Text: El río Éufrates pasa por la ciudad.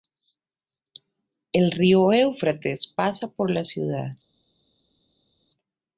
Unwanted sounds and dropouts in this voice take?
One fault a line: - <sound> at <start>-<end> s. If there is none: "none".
none